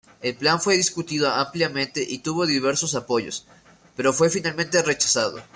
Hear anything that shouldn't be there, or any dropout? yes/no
no